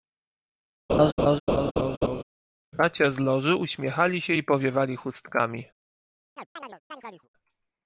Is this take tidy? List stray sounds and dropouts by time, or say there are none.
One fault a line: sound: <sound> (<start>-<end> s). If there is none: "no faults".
sound: laugh (0.9-2.2 s)
sound: chirp (6.4-7.3 s)